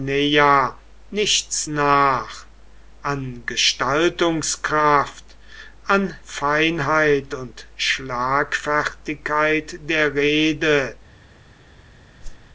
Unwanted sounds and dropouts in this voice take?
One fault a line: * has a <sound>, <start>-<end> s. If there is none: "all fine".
* has a whoosh, 12.2-12.5 s